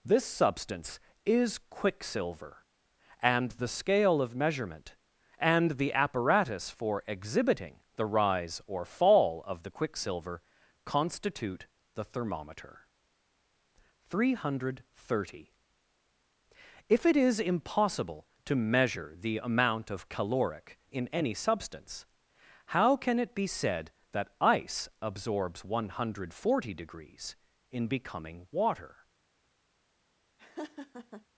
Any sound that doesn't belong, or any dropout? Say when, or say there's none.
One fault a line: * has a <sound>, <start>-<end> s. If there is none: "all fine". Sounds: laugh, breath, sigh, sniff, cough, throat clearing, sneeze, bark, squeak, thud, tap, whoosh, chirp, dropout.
* has a laugh, 30.4-31.3 s